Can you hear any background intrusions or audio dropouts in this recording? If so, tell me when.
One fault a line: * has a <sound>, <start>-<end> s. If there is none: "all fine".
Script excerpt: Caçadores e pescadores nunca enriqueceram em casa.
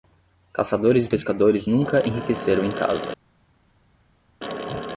all fine